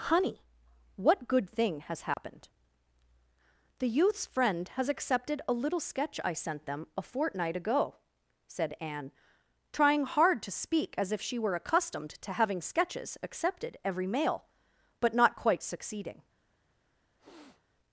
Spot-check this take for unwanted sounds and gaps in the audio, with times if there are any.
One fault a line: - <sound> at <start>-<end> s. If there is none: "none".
- dropout at 2.1-2.2 s
- sniff at 17.2-17.6 s